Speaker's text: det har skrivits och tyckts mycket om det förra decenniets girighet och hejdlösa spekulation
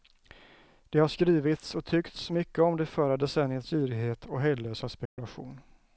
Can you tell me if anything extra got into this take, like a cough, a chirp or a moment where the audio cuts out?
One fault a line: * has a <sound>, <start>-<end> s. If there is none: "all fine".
* has a dropout, 5.1-5.2 s